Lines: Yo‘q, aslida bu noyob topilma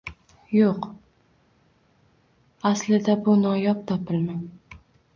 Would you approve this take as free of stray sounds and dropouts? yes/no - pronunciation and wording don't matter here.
yes